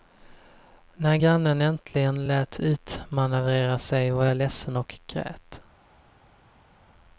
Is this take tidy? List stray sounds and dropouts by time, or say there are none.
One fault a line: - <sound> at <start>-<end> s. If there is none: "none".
none